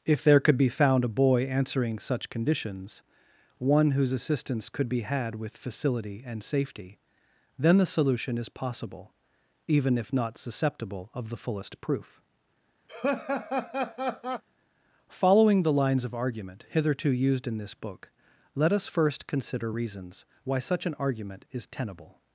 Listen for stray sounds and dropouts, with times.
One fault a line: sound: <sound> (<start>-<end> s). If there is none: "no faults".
sound: laugh (12.9-14.4 s)